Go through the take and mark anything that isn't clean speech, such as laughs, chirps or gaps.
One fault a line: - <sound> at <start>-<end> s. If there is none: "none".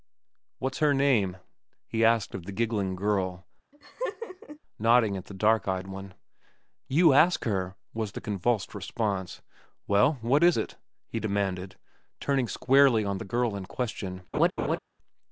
- laugh at 3.7-4.6 s
- laugh at 14.3-14.8 s